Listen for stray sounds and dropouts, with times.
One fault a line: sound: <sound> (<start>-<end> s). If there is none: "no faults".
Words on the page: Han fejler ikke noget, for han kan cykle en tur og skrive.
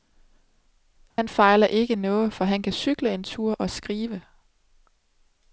sound: dropout (1.1-1.2 s)